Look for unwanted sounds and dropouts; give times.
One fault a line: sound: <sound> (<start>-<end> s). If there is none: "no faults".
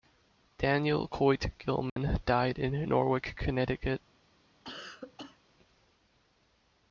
sound: dropout (1.9-2.0 s)
sound: cough (4.6-5.4 s)